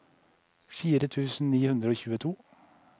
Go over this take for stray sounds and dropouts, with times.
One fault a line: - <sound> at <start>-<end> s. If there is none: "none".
none